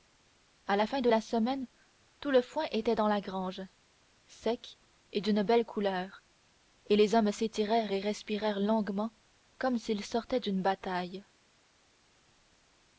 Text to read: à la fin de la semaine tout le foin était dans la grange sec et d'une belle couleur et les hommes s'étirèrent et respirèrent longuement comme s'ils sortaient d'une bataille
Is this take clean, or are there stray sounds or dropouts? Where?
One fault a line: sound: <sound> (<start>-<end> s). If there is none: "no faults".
no faults